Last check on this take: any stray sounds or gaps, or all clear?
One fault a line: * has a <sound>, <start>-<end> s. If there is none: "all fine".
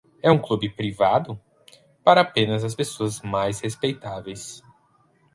all fine